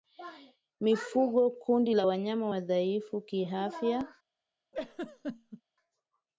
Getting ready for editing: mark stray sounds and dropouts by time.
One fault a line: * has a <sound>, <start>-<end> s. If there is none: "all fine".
* has a laugh, 4.7-5.6 s